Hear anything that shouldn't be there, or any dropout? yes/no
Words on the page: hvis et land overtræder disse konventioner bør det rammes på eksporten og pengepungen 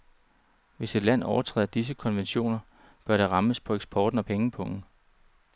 no